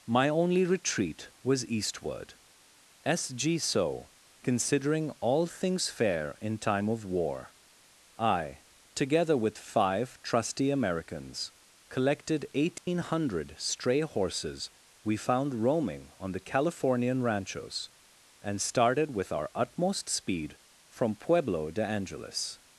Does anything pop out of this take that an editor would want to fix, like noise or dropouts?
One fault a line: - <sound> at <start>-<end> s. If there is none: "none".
- dropout at 12.8-12.9 s